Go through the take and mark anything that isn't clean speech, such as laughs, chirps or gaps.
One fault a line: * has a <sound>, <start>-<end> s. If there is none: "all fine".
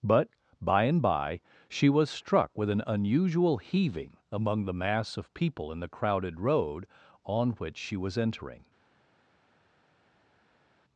all fine